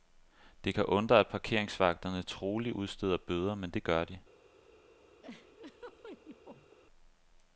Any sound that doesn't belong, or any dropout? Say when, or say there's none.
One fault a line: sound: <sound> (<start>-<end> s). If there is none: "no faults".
sound: laugh (5.2-6.8 s)